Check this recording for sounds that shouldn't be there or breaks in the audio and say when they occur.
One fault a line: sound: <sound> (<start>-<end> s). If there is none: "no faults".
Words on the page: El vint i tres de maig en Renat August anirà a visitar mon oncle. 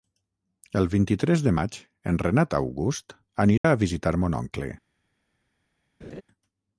sound: dropout (3.6-3.6 s)
sound: laugh (6.0-6.2 s)